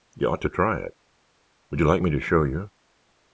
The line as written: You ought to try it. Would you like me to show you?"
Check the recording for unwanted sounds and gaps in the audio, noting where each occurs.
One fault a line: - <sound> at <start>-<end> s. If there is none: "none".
none